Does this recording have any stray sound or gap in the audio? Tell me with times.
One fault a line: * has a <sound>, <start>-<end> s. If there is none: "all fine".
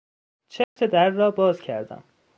* has a dropout, 0.6-0.8 s